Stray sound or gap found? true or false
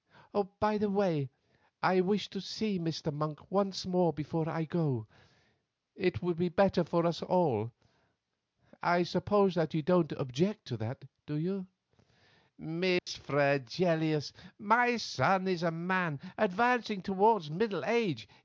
true